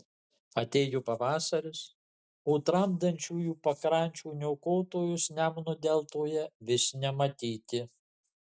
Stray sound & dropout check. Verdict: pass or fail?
pass